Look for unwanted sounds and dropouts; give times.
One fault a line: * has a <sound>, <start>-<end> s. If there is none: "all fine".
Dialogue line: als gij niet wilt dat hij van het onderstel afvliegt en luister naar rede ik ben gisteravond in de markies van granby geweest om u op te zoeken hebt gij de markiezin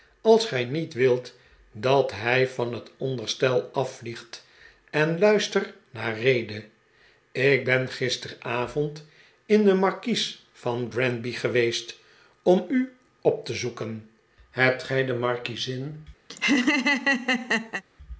* has a laugh, 16.3-17.8 s